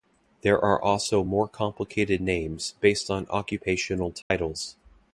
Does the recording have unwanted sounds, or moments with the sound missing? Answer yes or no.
yes